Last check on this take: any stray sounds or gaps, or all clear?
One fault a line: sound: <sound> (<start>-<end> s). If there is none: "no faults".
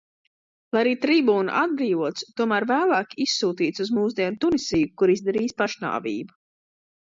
no faults